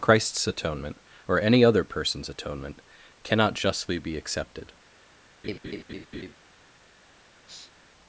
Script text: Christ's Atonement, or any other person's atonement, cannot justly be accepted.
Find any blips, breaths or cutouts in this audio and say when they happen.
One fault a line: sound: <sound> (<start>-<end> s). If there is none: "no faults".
sound: laugh (5.4-6.3 s)
sound: sniff (7.5-7.7 s)